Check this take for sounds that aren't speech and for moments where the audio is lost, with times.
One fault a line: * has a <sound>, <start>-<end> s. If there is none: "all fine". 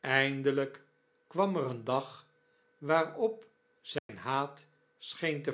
* has a dropout, 4.0-4.1 s